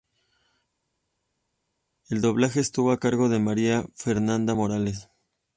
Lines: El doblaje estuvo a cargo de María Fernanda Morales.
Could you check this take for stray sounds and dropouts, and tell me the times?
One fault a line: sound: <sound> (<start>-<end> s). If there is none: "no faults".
no faults